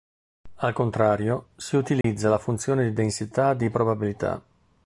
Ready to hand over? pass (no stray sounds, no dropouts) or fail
fail